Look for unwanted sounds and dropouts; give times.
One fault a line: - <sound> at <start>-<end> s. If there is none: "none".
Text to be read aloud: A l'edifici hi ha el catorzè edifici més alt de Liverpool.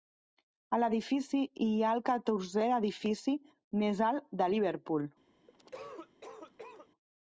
- cough at 5.5-6.9 s